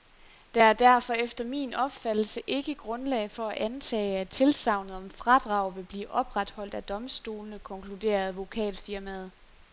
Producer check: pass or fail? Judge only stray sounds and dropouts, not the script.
pass